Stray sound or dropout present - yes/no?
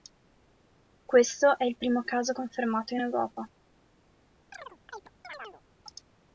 yes